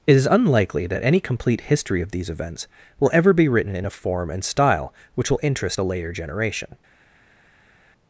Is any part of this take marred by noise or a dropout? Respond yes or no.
no